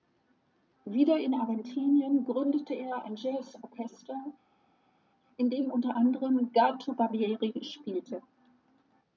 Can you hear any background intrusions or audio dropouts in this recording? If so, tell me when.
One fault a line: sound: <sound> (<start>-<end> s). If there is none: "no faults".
no faults